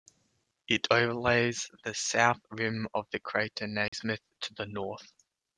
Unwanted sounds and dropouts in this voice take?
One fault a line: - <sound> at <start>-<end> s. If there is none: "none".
- dropout at 3.9-3.9 s